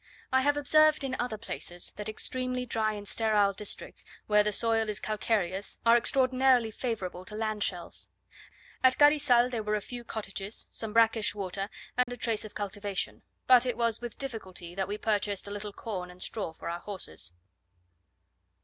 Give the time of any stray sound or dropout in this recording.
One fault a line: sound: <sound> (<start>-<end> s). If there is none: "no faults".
sound: dropout (12.0-12.1 s)